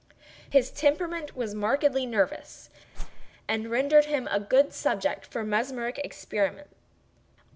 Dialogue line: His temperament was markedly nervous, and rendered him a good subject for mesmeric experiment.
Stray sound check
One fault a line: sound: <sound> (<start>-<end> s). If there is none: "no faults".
sound: whoosh (2.9-3.3 s)